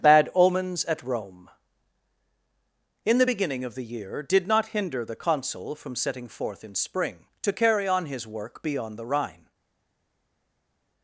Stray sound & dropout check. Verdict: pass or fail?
pass